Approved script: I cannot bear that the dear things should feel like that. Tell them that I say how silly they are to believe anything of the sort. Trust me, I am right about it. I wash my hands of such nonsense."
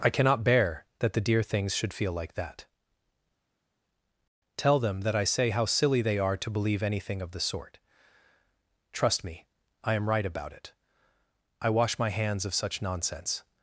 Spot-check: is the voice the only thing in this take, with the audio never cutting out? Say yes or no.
yes